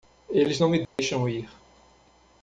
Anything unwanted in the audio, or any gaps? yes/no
yes